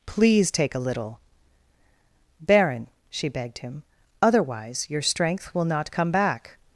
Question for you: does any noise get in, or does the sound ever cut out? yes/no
no